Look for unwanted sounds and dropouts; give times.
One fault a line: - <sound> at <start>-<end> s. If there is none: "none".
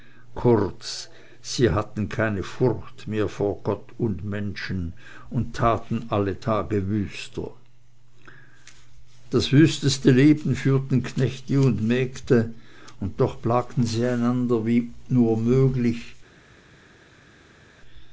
none